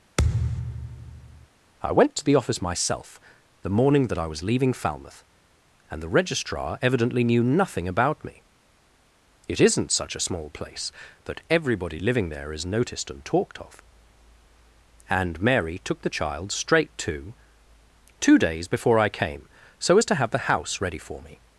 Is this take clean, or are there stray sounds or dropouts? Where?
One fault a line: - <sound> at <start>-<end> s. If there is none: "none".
- thud at 0.2-1.5 s